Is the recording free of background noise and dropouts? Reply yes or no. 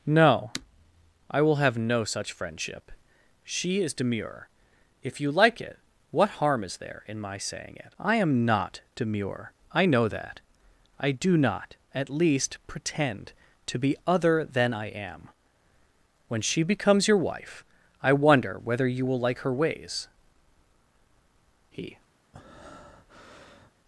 no